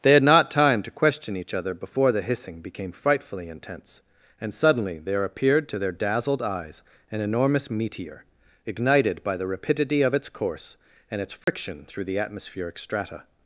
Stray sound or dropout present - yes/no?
yes